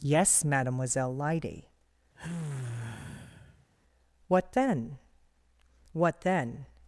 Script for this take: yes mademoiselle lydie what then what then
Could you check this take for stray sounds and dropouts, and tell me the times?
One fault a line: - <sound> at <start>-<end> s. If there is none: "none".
- sigh at 2.1-3.7 s